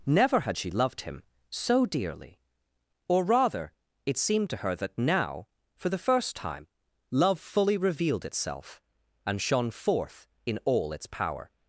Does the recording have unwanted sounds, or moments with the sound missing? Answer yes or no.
no